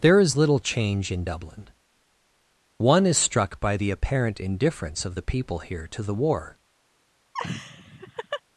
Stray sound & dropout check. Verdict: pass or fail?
fail